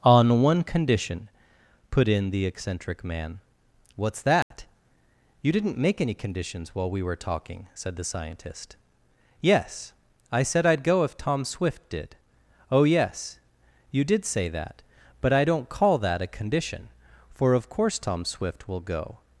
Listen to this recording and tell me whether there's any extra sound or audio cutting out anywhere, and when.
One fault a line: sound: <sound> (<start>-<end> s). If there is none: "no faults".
sound: dropout (4.4-4.5 s)